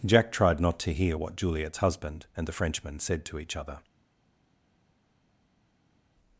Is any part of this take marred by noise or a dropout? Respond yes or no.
no